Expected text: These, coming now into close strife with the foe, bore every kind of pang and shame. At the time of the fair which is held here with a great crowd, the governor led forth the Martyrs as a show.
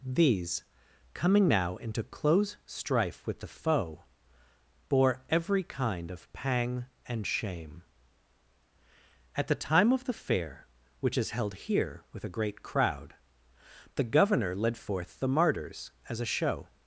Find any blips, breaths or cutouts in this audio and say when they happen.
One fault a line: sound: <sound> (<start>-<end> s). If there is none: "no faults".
no faults